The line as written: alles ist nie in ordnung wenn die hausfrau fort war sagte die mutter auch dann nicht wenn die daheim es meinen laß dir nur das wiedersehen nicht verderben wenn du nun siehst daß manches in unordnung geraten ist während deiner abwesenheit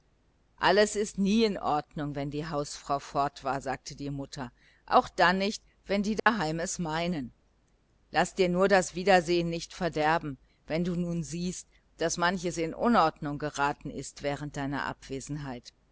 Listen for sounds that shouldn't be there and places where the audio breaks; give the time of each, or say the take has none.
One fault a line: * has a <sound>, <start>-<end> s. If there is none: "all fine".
* has a dropout, 6.2-6.3 s